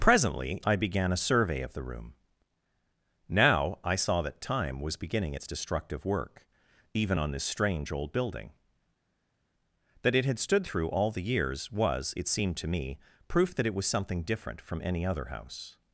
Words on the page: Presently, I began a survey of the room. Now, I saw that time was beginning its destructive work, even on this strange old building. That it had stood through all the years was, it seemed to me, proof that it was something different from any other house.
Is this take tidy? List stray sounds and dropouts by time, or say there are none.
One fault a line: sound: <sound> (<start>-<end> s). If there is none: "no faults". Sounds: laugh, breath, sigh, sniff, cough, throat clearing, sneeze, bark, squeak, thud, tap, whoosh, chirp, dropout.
no faults